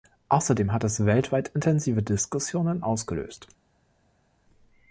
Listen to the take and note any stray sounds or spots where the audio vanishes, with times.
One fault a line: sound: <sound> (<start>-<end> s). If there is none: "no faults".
no faults